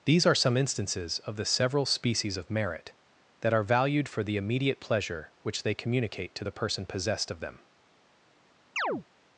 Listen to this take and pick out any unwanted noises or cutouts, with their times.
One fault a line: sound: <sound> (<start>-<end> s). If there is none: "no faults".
sound: chirp (8.8-9.0 s)